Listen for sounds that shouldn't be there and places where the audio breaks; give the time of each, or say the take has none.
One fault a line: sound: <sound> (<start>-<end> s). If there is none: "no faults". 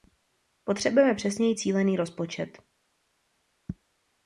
no faults